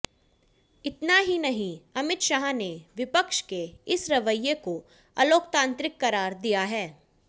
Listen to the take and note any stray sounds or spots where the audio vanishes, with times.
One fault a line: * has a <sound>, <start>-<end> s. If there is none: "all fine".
all fine